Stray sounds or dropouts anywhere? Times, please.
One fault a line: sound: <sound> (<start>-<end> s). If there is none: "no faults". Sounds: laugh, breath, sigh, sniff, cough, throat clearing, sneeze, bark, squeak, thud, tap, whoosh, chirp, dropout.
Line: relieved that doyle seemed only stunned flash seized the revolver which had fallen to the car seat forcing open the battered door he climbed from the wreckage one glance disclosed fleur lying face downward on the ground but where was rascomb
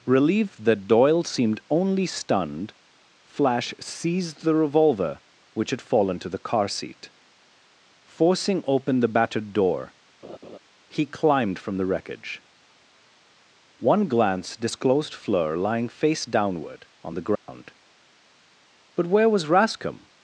sound: laugh (10.2-10.6 s)
sound: dropout (17.4-17.5 s)